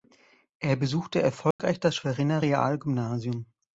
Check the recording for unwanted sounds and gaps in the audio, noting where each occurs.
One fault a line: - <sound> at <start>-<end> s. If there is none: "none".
- dropout at 1.5-1.6 s